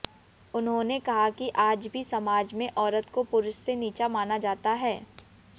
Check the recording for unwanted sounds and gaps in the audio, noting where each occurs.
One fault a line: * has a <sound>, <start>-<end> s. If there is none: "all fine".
all fine